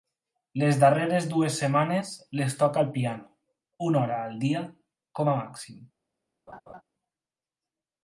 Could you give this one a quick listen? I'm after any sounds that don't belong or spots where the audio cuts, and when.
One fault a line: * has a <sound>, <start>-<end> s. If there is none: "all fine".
* has a laugh, 6.5-6.8 s